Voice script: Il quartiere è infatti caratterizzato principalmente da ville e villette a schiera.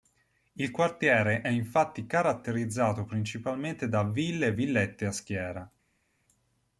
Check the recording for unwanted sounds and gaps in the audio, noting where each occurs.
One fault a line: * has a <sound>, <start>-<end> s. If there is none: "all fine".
all fine